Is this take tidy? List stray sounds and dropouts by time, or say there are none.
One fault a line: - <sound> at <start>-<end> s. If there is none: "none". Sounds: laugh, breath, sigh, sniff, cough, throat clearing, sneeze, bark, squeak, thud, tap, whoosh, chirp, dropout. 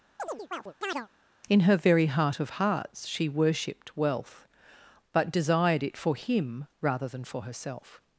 - chirp at 0.2-1.1 s